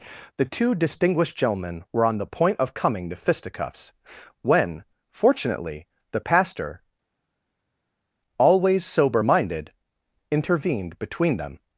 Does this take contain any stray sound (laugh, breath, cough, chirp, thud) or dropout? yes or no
no